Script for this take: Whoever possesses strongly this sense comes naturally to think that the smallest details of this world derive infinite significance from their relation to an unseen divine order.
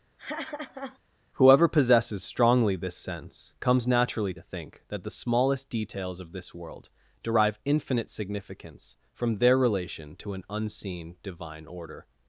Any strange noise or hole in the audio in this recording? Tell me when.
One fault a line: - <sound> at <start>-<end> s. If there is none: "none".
- laugh at 0.2-1.0 s